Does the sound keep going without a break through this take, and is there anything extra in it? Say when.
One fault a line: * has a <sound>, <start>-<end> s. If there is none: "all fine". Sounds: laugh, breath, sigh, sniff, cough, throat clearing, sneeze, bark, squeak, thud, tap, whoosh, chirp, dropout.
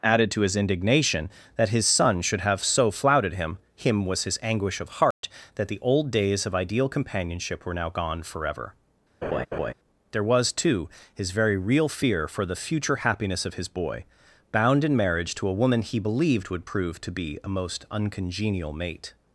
* has a dropout, 5.1-5.2 s
* has a laugh, 9.2-9.7 s